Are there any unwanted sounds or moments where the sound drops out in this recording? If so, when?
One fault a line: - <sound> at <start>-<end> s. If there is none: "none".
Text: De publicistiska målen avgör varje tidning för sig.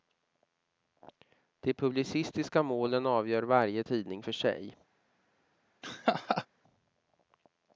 - laugh at 5.8-6.5 s